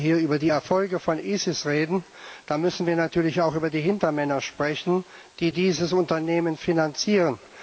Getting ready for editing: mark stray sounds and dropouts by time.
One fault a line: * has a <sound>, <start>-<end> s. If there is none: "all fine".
all fine